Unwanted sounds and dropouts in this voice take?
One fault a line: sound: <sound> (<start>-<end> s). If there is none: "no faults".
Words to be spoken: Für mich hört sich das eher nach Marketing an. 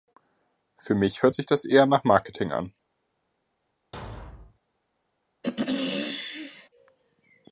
sound: thud (3.9-4.6 s)
sound: throat clearing (5.4-6.7 s)